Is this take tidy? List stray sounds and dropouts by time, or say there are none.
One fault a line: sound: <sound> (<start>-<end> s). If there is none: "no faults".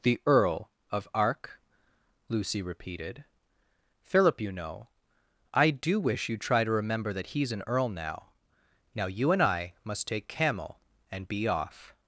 no faults